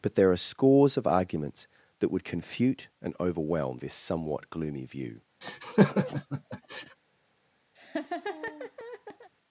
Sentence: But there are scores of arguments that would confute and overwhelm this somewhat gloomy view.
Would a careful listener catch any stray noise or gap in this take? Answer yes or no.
yes